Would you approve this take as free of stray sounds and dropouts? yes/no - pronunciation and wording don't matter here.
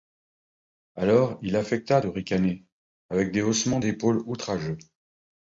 yes